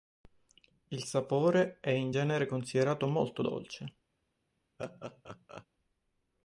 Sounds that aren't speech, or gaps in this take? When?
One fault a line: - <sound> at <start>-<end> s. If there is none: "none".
- laugh at 4.8-5.7 s